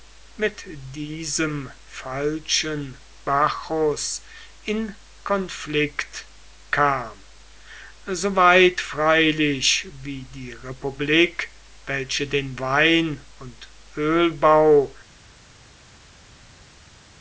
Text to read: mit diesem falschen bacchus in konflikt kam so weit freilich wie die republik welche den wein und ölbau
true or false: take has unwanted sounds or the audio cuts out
false